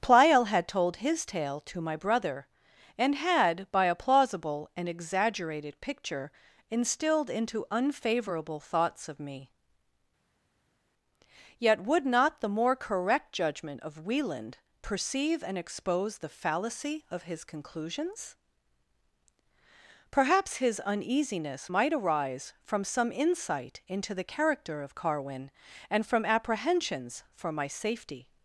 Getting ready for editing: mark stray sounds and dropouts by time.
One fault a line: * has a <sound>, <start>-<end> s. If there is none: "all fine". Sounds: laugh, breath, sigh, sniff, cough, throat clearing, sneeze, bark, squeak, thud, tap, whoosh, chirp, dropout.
all fine